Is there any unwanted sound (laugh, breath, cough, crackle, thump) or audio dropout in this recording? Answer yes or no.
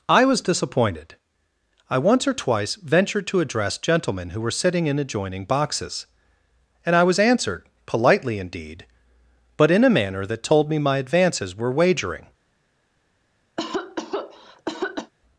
yes